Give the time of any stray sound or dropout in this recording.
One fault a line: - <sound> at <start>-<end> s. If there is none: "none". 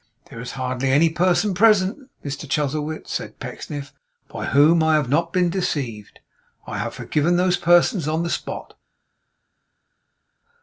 none